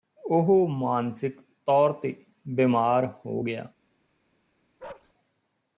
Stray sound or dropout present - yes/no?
yes